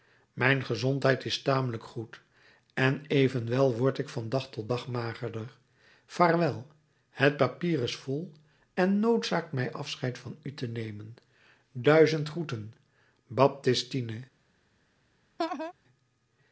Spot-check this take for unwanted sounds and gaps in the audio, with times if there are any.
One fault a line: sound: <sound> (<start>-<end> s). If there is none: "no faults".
sound: laugh (15.4-15.7 s)